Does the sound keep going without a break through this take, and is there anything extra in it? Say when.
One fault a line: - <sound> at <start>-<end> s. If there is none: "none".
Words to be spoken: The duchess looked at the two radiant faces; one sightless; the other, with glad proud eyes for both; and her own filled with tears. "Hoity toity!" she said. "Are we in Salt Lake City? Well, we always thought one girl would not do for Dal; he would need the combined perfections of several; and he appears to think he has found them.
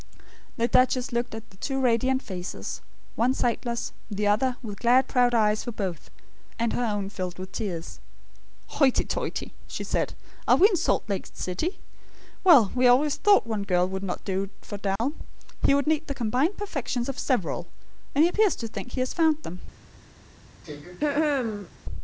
- dropout at 15.0-15.0 s
- throat clearing at 20.6-21.7 s